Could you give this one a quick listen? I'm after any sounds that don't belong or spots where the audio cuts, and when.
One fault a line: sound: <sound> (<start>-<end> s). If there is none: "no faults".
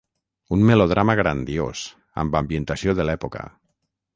no faults